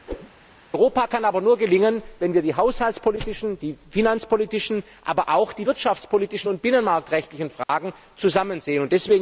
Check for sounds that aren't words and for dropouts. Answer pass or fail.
fail